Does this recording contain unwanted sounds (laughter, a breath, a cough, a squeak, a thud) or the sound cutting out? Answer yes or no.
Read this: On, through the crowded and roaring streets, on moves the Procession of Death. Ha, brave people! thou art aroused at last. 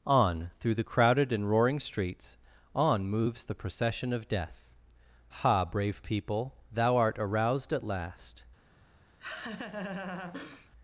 yes